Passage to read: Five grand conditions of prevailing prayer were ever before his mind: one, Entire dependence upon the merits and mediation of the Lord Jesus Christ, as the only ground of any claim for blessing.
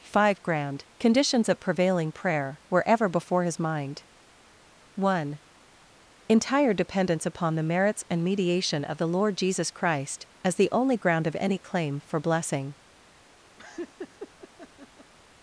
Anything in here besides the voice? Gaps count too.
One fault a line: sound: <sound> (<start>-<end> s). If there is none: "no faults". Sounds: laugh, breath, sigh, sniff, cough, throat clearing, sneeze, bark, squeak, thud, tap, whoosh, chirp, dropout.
sound: laugh (13.6-15.1 s)